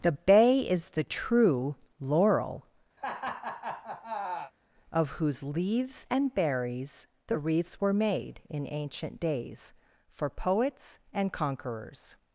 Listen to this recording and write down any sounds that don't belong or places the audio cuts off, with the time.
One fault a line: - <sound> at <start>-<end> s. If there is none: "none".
- laugh at 3.0-4.5 s